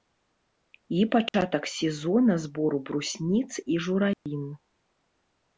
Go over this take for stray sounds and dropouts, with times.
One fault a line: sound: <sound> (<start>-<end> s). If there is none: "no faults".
sound: dropout (1.3-1.3 s)
sound: dropout (4.1-4.3 s)